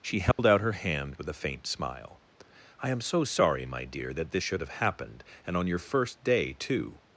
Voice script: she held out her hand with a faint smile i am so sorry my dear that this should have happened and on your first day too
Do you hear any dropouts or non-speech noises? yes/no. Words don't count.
yes